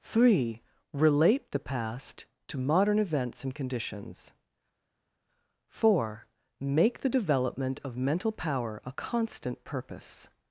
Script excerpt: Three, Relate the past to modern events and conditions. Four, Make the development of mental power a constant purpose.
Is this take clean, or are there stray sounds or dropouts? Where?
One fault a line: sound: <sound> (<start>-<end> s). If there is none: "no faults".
no faults